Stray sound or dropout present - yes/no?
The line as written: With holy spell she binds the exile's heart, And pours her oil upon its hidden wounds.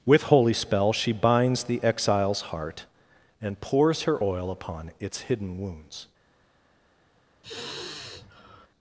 yes